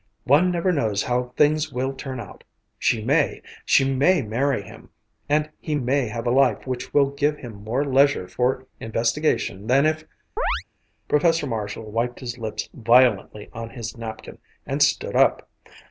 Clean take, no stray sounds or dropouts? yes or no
no